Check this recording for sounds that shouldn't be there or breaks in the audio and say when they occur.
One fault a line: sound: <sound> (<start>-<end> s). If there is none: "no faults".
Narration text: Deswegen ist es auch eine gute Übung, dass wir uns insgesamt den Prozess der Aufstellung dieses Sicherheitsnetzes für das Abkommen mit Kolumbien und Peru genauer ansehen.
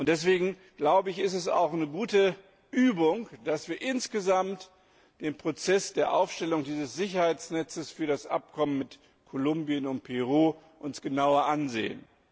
no faults